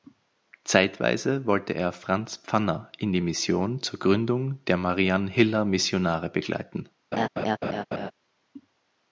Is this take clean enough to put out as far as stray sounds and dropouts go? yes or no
no